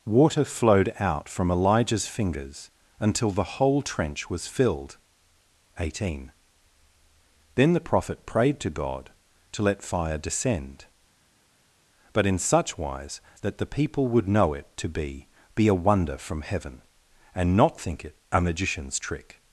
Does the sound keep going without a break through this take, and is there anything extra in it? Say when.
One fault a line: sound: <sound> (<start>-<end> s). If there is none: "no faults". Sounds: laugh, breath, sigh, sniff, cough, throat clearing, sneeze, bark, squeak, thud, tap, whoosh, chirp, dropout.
no faults